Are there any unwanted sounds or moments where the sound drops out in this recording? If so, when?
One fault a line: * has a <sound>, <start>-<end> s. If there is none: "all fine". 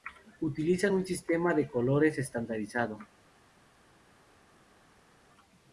all fine